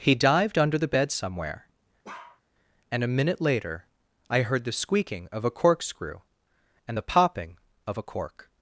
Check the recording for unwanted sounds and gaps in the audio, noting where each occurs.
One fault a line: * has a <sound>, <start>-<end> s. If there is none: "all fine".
* has a bark, 2.0-2.4 s